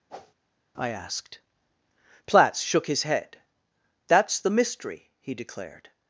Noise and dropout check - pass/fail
fail